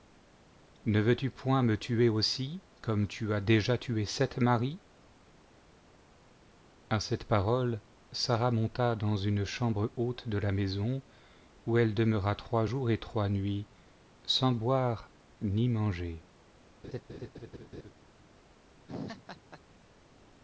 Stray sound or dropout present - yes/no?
yes